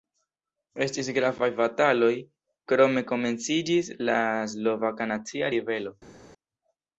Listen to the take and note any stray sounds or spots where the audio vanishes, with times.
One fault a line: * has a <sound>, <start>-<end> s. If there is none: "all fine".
all fine